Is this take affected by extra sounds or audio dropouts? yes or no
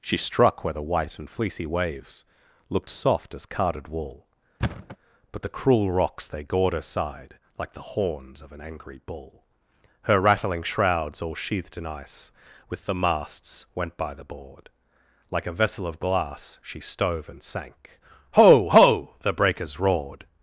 yes